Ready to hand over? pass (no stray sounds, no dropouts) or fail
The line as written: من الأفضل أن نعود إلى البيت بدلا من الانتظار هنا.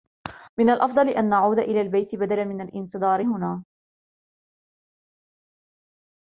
pass